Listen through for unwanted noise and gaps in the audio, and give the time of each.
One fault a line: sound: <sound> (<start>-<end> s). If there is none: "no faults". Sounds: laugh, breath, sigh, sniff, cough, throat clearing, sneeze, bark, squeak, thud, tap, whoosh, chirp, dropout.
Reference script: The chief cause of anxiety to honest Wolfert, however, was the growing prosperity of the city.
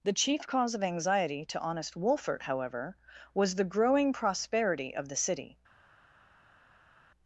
no faults